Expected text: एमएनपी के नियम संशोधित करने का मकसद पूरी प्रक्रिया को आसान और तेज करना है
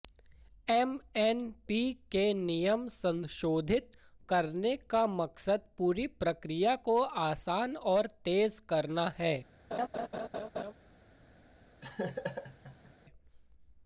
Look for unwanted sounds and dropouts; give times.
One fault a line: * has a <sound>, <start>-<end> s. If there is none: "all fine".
* has a laugh, 9.7-10.7 s
* has a laugh, 11.8-12.9 s